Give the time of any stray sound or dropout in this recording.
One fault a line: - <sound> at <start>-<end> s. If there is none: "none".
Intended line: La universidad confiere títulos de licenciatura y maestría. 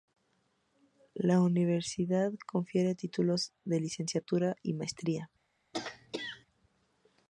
- throat clearing at 5.7-6.5 s